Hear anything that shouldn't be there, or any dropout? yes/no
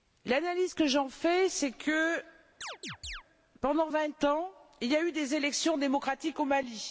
yes